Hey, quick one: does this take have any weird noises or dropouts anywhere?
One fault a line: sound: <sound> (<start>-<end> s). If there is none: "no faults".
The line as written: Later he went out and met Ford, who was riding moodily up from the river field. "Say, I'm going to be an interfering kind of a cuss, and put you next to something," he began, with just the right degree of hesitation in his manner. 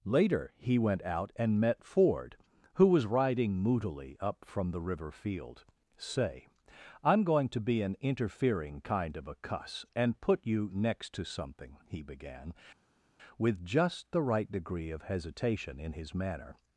no faults